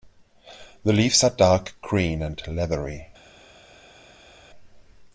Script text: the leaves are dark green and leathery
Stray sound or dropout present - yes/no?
no